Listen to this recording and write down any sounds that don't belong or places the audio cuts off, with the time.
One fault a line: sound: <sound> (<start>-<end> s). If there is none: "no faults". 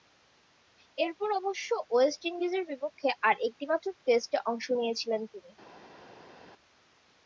no faults